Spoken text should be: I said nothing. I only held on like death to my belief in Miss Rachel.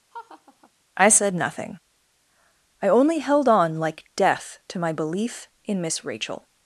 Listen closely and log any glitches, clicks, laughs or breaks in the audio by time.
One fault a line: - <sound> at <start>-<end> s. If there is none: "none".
- laugh at 0.1-0.7 s